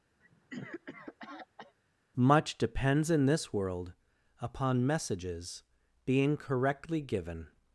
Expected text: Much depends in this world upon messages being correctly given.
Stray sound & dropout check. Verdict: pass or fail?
fail